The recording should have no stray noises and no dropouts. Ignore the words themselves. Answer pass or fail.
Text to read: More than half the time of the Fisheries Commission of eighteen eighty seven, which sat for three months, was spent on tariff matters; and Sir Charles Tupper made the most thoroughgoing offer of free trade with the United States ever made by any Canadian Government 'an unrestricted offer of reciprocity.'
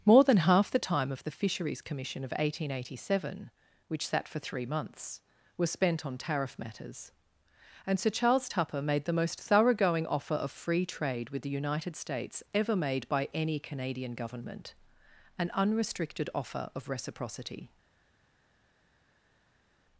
pass